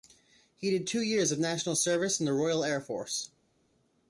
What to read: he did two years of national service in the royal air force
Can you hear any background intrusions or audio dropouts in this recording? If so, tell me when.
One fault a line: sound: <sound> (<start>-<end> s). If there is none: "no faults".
no faults